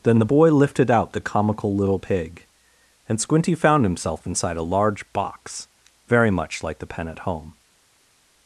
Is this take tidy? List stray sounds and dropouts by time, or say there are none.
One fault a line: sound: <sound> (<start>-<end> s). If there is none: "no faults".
no faults